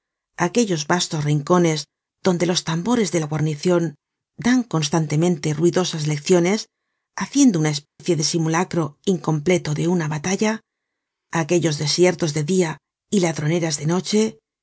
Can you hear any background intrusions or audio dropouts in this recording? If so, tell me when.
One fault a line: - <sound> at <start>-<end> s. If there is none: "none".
- dropout at 7.9-8.0 s